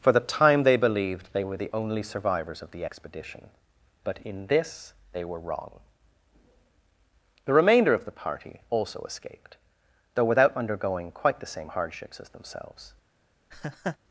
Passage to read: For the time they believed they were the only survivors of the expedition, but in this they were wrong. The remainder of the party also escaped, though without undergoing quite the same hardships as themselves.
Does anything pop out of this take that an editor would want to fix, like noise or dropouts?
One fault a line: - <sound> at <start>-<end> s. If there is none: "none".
- laugh at 13.5-14.0 s